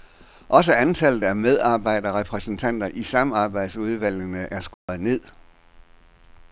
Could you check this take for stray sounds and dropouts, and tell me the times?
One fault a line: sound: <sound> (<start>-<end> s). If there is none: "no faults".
sound: dropout (4.7-4.9 s)